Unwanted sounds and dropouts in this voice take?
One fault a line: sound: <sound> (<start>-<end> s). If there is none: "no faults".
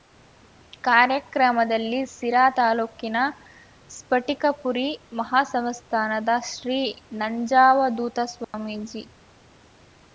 sound: dropout (8.4-8.5 s)